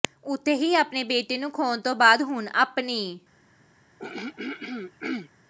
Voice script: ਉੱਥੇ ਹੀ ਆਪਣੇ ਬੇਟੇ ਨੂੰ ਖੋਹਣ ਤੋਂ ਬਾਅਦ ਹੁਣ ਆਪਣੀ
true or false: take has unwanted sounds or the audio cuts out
true